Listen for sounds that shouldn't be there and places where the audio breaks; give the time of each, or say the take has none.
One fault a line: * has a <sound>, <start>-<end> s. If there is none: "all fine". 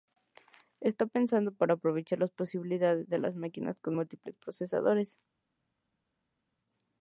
all fine